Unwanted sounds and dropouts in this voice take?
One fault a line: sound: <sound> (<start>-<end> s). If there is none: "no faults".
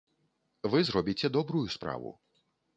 no faults